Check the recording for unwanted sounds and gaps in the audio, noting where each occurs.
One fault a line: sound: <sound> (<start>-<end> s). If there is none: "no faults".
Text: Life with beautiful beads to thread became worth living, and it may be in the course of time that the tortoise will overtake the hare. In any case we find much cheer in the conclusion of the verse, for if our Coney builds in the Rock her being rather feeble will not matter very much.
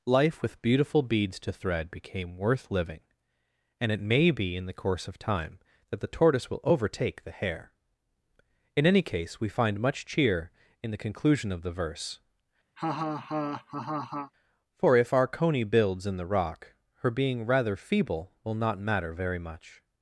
sound: laugh (12.8-14.3 s)